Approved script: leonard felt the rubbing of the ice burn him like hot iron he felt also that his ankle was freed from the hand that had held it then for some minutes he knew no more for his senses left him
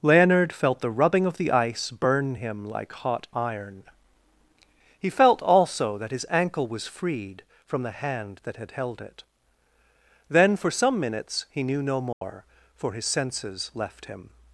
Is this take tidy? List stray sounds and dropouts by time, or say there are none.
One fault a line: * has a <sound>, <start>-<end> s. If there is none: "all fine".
* has a dropout, 12.1-12.2 s